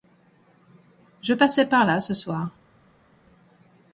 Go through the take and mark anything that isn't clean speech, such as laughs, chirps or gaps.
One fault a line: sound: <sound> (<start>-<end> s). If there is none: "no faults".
no faults